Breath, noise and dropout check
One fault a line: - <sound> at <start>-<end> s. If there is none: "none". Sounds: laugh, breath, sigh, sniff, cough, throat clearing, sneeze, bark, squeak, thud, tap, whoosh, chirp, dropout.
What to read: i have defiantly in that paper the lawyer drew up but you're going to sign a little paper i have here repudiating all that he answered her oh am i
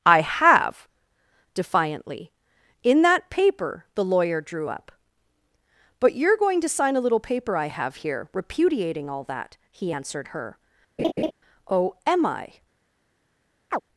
- laugh at 11.0-11.3 s
- chirp at 13.7-13.8 s